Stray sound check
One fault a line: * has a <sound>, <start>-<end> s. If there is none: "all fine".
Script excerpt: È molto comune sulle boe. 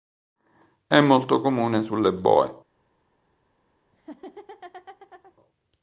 * has a laugh, 3.9-5.3 s